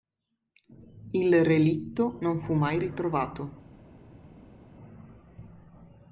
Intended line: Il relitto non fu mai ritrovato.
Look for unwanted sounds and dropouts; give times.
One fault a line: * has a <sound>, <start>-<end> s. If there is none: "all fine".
all fine